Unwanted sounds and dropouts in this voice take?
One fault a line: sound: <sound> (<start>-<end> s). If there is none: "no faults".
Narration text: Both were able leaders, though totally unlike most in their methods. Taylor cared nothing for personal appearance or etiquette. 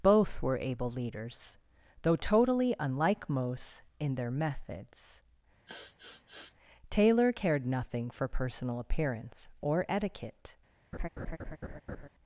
sound: sniff (5.7-6.5 s)
sound: laugh (10.9-12.1 s)